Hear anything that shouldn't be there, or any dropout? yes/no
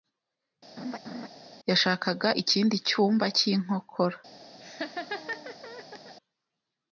yes